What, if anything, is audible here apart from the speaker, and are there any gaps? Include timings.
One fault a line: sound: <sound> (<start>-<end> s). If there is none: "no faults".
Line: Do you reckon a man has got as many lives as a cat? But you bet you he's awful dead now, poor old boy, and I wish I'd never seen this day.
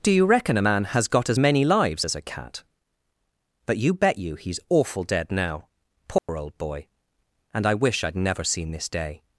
sound: dropout (6.2-6.3 s)